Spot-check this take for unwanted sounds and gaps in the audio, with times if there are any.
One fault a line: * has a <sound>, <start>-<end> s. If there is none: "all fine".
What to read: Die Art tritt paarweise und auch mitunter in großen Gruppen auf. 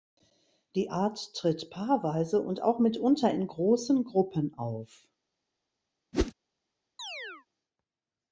* has a whoosh, 6.1-6.3 s
* has a chirp, 7.0-7.5 s